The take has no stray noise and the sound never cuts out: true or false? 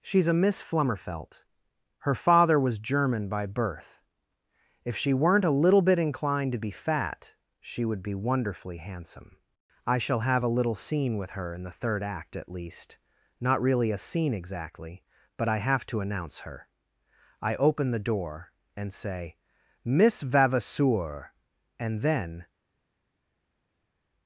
true